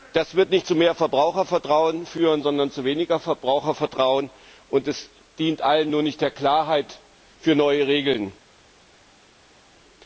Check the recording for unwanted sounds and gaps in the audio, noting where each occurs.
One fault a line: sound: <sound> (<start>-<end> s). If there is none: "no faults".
no faults